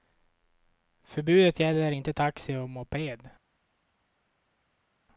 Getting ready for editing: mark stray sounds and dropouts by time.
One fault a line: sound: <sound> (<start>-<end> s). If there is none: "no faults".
no faults